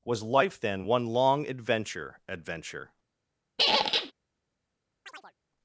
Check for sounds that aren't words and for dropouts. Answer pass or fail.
fail